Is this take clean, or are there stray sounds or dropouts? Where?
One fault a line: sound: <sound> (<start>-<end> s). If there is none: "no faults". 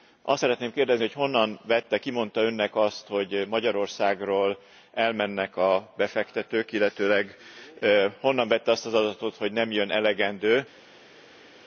no faults